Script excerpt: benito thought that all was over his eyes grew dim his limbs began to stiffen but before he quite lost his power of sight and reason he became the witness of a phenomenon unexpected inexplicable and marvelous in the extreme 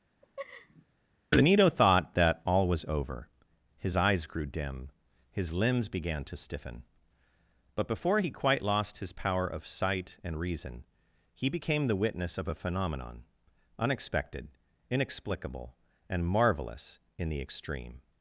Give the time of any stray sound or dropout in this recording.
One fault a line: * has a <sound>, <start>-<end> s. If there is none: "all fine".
* has a laugh, 0.2-0.9 s